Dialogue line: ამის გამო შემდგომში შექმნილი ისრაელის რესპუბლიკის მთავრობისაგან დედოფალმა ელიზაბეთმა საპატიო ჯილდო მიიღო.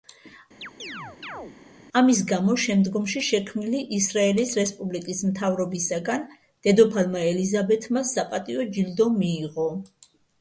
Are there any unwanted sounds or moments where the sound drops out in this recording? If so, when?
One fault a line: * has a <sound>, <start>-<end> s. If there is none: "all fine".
* has a chirp, 0.6-1.6 s